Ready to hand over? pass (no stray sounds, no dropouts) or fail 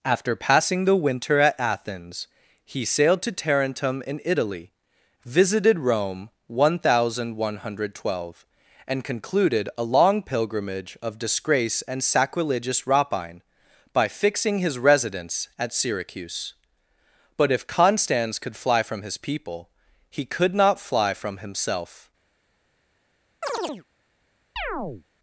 fail